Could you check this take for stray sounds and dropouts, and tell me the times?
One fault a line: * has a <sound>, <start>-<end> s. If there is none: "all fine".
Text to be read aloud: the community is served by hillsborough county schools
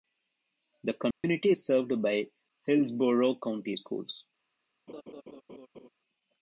* has a dropout, 1.1-1.2 s
* has a laugh, 4.9-5.9 s